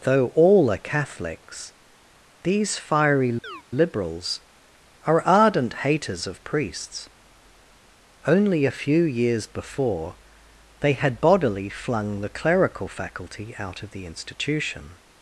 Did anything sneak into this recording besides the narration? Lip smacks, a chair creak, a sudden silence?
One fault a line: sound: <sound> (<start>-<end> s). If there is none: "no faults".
sound: chirp (3.4-3.6 s)